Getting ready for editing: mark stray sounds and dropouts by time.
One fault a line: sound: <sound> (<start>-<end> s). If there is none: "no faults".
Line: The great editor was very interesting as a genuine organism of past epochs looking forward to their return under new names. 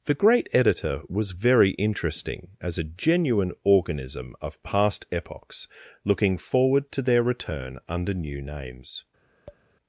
sound: tap (9.5-9.6 s)